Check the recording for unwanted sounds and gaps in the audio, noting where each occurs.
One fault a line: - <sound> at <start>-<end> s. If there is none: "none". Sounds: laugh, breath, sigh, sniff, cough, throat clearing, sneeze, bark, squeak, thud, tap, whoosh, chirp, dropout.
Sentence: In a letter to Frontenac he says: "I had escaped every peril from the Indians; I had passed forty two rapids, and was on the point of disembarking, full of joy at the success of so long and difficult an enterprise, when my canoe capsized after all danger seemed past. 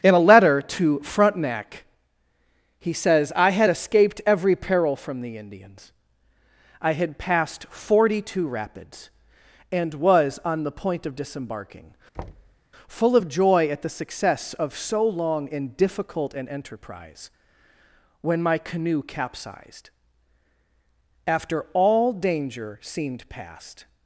- thud at 12.1-12.6 s